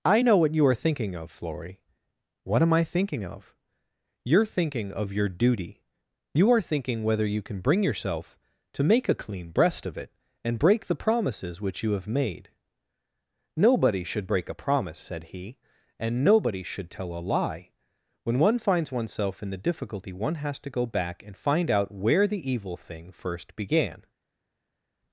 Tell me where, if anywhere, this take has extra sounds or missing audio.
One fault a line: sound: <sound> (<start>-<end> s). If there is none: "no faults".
no faults